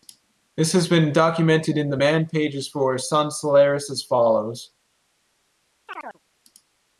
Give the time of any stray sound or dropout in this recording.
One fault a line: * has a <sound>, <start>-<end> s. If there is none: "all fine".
* has a chirp, 5.9-6.2 s